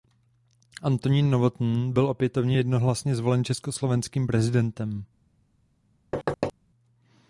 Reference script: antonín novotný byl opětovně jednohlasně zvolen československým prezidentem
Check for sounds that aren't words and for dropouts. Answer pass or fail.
fail